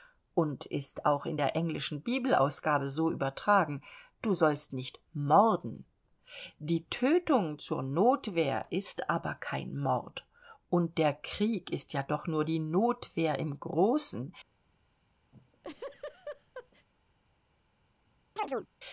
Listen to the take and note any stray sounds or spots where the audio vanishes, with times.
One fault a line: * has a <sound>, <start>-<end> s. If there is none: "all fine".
* has a laugh, 15.3-16.9 s
* has a chirp, 18.4-18.7 s